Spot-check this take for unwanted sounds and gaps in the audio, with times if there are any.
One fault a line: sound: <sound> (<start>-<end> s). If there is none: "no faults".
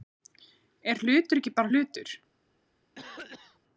sound: cough (3.0-3.6 s)